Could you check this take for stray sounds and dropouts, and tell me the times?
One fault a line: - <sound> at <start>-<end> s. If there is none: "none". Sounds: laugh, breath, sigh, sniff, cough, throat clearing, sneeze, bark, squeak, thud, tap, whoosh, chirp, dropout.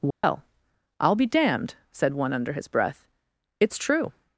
- dropout at 0.1-0.2 s